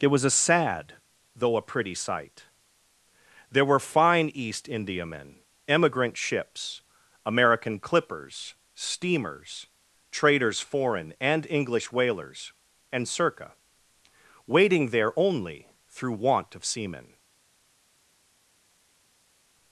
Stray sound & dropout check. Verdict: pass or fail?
pass